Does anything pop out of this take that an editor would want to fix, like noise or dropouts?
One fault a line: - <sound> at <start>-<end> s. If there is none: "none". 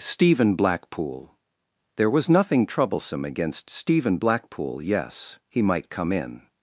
none